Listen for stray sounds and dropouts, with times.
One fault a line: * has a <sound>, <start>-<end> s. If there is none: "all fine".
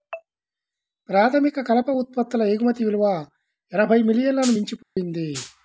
* has a dropout, 4.8-5.0 s